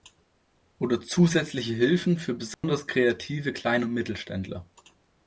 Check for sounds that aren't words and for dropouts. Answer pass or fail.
fail